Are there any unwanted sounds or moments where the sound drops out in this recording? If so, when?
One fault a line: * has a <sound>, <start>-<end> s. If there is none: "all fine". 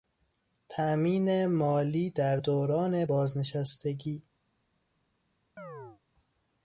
* has a chirp, 5.6-6.0 s